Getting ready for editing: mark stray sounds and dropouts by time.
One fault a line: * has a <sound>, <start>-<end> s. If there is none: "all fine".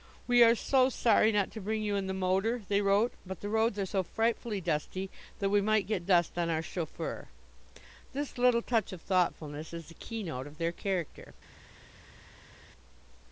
all fine